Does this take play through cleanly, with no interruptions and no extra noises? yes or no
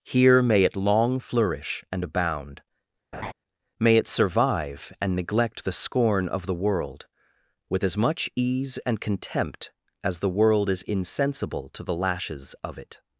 no